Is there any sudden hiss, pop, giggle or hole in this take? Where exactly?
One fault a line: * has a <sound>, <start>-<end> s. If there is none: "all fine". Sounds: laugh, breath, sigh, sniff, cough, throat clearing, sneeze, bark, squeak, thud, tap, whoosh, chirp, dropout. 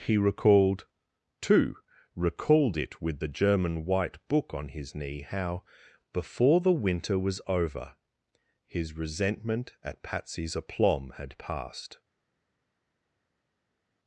all fine